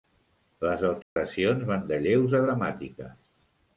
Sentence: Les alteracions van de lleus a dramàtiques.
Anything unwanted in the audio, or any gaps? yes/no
yes